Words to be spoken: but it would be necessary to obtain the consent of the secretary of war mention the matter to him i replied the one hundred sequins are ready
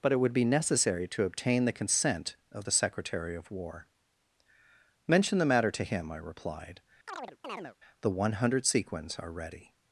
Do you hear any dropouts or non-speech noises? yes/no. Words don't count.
yes